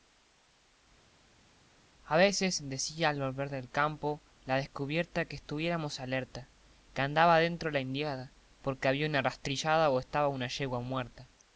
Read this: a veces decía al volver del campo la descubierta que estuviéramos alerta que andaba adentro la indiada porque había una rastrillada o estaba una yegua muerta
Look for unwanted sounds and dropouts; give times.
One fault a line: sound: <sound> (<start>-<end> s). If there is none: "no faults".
no faults